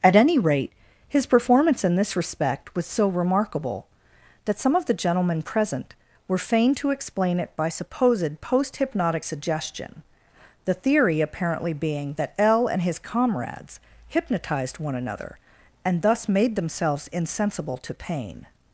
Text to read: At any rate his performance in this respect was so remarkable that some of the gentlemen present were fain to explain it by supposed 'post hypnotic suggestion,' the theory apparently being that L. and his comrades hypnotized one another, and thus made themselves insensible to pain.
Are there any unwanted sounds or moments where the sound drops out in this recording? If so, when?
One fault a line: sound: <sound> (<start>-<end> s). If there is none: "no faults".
no faults